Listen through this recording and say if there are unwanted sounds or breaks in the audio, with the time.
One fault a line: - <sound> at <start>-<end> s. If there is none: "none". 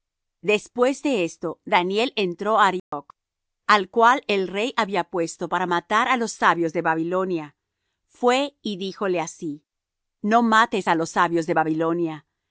- dropout at 2.8-2.9 s